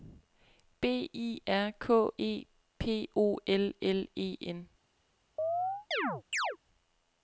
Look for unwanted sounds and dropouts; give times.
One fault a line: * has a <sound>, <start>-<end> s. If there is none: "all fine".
* has a chirp, 5.4-6.6 s